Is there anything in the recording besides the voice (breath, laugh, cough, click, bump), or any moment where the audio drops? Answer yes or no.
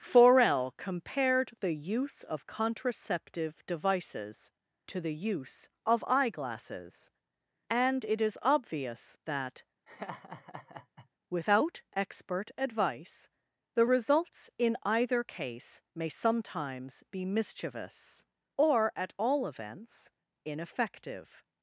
yes